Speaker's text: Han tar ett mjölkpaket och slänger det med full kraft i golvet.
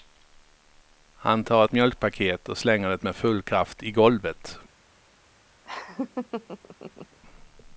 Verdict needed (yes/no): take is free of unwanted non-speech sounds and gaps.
no